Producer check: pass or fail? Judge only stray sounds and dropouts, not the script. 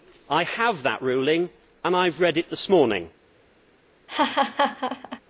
fail